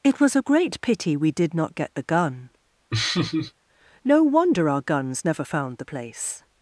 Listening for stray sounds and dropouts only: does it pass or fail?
fail